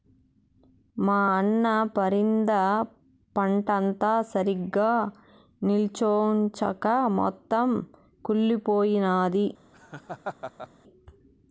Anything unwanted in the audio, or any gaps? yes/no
yes